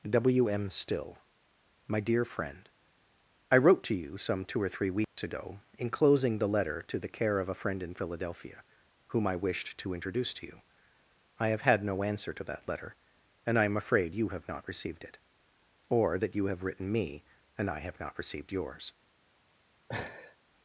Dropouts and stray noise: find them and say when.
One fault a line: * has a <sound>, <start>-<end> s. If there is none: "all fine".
* has a dropout, 5.0-5.2 s
* has a laugh, 19.9-20.4 s